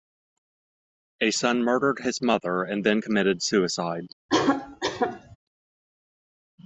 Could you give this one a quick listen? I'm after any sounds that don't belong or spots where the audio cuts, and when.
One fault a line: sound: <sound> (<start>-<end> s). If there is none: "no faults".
sound: cough (4.3-5.4 s)